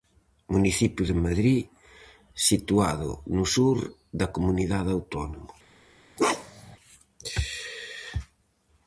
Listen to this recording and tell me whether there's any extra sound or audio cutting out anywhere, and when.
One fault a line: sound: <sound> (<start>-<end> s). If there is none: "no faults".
sound: bark (6.2-6.8 s)